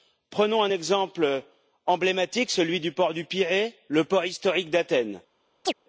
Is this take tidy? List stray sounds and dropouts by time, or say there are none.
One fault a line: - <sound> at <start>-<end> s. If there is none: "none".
- chirp at 5.6-5.7 s